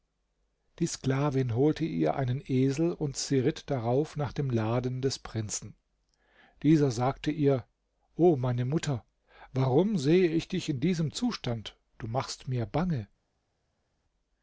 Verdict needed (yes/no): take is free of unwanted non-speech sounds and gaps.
yes